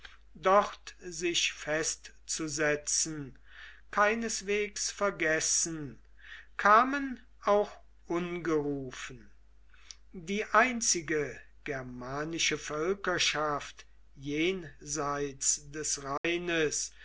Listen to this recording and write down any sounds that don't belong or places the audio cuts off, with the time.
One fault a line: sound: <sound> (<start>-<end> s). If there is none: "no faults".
sound: dropout (16.2-16.2 s)